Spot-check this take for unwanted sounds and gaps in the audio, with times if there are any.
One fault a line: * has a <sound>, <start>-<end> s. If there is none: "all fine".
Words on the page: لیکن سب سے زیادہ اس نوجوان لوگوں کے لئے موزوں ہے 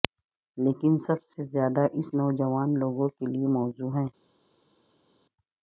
all fine